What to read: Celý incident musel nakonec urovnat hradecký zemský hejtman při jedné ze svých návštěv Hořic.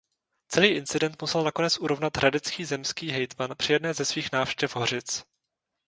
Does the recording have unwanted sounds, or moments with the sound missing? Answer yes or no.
no